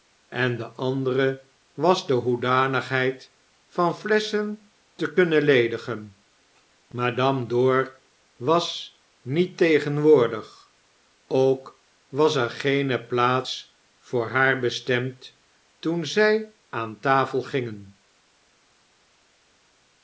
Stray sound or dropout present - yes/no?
no